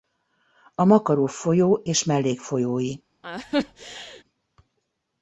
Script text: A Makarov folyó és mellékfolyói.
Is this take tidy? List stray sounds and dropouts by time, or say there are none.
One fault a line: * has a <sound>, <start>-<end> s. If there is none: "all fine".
* has a laugh, 3.2-4.2 s